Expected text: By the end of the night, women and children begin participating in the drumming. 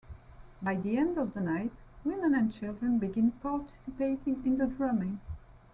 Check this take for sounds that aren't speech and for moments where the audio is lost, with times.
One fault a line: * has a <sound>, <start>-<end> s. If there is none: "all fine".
all fine